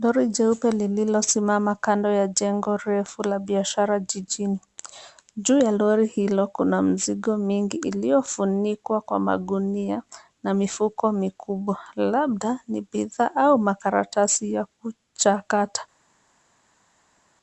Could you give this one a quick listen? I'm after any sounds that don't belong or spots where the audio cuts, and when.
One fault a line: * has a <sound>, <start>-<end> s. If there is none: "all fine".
all fine